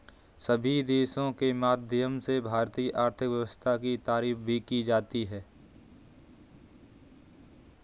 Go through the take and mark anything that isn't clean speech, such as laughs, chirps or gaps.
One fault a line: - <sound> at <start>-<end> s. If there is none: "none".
none